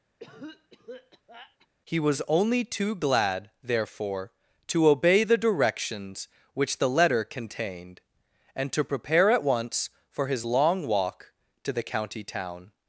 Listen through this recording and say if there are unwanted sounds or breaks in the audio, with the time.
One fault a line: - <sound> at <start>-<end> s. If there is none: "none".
- cough at 0.2-1.7 s